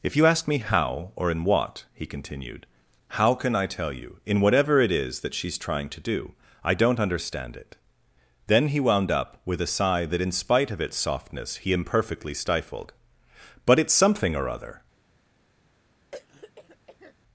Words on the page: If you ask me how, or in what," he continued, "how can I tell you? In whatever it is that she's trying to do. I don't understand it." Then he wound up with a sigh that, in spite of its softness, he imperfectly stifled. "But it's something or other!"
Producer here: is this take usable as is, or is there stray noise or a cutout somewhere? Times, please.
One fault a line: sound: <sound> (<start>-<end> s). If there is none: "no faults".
sound: throat clearing (16.1-17.1 s)